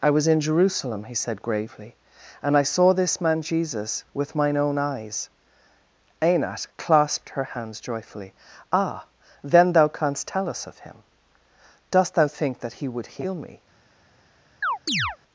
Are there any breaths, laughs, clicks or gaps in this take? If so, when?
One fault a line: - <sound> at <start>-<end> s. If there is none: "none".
- chirp at 14.6-15.2 s